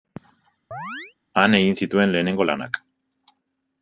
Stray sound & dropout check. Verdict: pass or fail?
fail